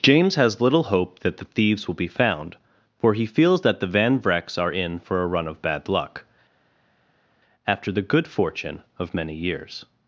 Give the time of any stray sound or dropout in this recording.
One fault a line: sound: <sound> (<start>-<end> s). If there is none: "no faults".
no faults